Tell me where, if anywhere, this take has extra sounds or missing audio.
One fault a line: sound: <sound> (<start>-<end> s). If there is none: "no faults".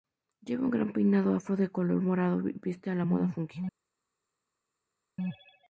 no faults